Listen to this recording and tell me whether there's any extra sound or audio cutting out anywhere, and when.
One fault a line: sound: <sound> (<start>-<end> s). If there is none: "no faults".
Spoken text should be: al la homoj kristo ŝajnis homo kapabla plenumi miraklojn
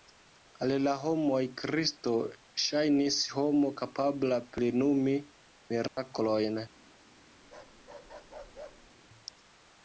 sound: dropout (5.9-6.0 s)
sound: bark (7.4-8.9 s)